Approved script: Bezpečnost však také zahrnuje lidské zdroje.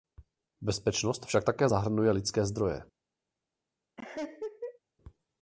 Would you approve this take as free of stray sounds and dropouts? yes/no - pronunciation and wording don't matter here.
no